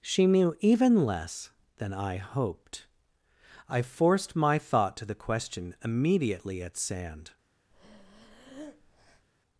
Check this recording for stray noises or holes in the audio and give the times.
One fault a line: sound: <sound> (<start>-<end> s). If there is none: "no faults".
sound: breath (7.7-9.3 s)